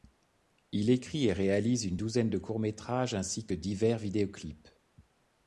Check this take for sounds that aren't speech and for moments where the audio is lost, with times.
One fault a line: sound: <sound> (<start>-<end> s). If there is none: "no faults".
no faults